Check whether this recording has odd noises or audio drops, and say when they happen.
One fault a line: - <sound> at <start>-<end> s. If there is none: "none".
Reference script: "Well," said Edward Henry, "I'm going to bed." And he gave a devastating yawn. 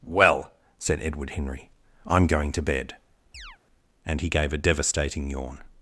- chirp at 3.3-3.6 s